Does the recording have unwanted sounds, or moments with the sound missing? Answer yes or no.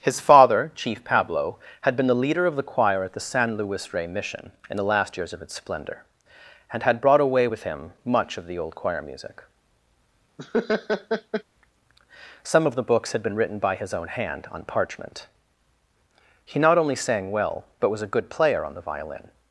yes